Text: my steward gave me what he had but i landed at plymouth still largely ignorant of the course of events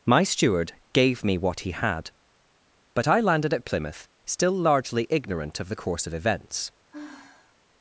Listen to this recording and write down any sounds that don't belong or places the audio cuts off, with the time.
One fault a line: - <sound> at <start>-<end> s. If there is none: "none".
- sigh at 6.9-7.6 s